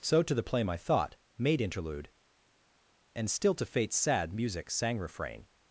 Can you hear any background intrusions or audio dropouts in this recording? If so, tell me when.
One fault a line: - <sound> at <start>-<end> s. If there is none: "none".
none